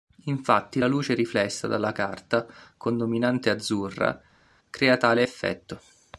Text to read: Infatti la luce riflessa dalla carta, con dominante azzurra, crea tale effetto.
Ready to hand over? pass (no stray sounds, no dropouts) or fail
pass